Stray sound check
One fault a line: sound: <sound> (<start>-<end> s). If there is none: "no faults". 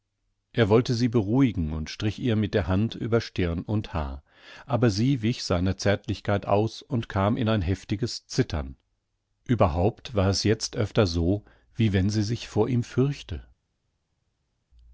no faults